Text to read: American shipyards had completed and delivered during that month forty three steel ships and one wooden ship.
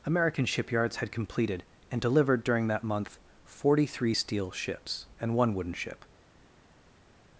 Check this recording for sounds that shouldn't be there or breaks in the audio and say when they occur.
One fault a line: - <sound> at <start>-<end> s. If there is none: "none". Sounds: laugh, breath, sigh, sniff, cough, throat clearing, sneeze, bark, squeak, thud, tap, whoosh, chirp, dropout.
none